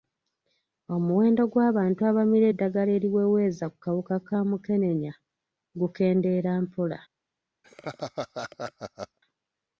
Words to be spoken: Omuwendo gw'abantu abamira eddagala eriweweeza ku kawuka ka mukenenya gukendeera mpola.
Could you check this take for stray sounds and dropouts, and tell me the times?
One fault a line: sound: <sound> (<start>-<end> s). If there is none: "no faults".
sound: laugh (7.6-9.2 s)